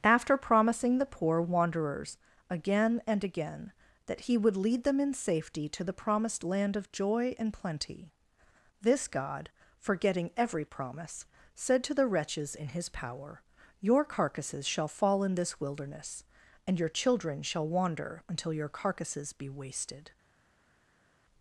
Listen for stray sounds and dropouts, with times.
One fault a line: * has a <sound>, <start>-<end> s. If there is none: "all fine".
all fine